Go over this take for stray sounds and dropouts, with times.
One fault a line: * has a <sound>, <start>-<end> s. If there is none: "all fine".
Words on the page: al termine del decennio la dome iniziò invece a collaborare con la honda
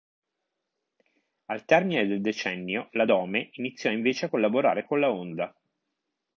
all fine